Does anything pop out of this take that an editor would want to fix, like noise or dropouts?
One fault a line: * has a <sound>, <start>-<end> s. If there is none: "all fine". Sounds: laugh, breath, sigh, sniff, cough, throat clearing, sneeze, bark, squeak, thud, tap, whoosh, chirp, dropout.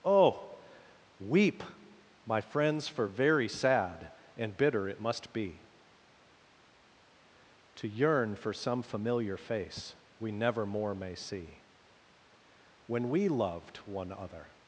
all fine